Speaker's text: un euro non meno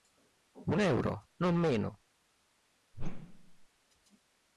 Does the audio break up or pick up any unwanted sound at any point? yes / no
yes